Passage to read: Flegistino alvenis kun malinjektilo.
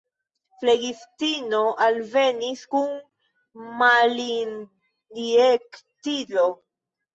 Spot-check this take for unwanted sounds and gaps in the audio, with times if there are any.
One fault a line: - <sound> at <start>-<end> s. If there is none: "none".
none